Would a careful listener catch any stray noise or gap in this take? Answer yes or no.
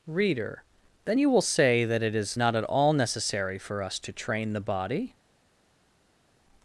no